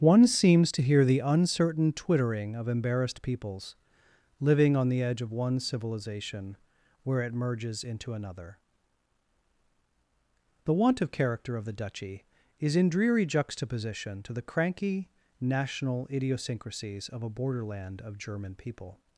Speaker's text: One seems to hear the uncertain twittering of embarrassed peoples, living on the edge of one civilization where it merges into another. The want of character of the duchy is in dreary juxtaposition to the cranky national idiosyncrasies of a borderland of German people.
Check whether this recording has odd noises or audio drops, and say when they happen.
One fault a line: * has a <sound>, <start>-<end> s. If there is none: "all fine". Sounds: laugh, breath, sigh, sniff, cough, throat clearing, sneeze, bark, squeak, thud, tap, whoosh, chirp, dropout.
all fine